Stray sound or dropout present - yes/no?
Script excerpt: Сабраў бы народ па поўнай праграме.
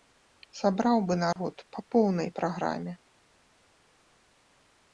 yes